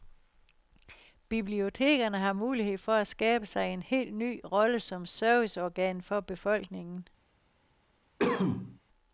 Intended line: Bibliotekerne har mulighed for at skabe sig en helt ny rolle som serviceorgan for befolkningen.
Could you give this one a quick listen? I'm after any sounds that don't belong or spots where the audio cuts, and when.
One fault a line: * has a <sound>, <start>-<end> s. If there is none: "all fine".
* has a cough, 8.2-8.8 s